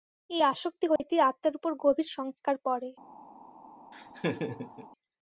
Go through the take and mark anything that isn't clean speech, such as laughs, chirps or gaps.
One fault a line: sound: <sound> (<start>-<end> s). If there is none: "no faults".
sound: dropout (1.0-1.0 s)
sound: laugh (3.9-4.9 s)